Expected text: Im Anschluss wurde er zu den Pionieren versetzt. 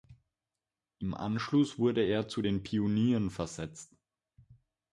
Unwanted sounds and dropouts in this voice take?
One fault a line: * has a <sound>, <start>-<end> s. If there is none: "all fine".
all fine